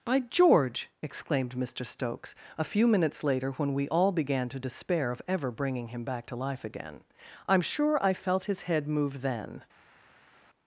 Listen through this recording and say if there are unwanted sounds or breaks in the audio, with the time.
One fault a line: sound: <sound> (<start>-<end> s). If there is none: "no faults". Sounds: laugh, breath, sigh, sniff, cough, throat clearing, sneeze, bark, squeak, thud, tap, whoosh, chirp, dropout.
no faults